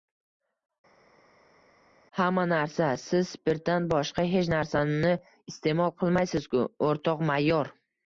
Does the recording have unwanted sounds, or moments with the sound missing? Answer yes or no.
no